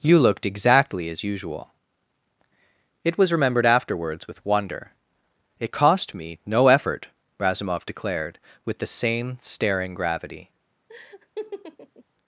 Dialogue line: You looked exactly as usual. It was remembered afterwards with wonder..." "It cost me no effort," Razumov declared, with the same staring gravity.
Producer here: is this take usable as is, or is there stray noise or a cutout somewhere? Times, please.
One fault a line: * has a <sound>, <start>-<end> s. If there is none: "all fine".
* has a laugh, 10.9-12.0 s